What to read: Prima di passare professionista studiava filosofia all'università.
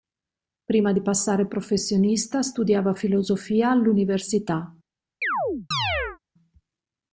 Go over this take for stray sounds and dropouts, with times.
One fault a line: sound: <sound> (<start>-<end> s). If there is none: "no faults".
sound: chirp (5.2-6.2 s)